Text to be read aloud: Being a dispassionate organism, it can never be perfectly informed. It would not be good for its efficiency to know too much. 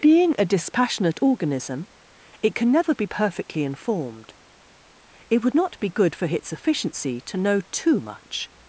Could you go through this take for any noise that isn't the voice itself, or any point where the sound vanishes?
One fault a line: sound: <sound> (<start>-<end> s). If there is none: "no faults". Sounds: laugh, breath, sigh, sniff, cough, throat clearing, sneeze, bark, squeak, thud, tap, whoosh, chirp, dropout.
no faults